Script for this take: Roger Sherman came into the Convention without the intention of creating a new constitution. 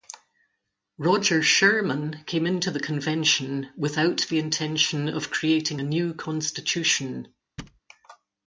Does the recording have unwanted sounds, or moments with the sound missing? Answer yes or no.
yes